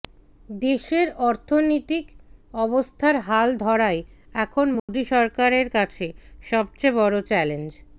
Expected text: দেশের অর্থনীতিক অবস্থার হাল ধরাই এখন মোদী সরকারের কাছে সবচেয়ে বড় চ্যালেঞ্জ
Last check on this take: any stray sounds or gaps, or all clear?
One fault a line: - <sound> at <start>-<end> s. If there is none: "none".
- dropout at 4.8-4.9 s